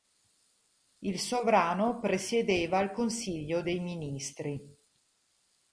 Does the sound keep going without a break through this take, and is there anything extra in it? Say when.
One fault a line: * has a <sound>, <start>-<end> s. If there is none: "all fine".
all fine